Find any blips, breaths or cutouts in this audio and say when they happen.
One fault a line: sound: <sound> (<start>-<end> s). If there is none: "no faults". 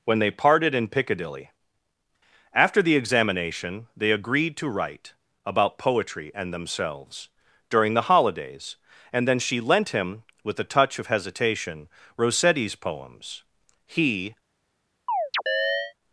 sound: chirp (15.1-15.9 s)